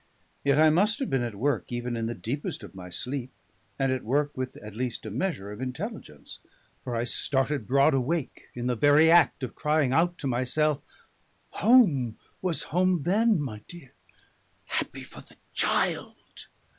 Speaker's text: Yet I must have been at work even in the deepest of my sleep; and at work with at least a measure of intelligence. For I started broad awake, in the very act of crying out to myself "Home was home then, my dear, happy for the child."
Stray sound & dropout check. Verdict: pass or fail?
pass